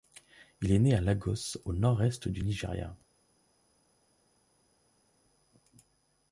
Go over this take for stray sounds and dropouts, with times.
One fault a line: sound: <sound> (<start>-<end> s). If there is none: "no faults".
no faults